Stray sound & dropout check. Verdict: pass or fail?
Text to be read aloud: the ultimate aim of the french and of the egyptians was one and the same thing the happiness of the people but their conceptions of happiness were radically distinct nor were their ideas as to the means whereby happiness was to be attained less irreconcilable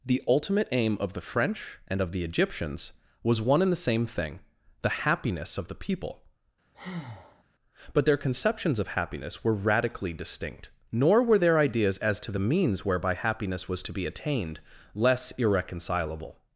fail